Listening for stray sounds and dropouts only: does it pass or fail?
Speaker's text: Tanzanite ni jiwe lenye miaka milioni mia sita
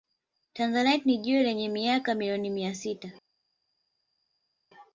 pass